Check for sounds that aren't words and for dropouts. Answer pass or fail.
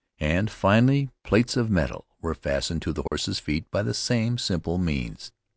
fail